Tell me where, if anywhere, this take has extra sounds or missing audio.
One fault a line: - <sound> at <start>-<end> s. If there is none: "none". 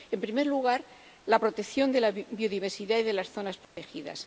- dropout at 3.6-3.8 s